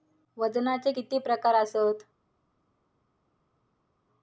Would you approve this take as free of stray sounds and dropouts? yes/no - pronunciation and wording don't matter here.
yes